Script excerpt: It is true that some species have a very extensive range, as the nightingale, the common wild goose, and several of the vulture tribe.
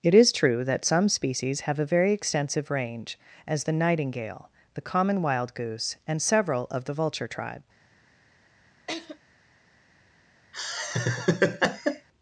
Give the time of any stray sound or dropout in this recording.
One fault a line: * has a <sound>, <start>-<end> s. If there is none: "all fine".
* has a laugh, 8.9-9.2 s
* has a laugh, 10.5-12.1 s